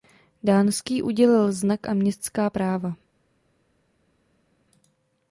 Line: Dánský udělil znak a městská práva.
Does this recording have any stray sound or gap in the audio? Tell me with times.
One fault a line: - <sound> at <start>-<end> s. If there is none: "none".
none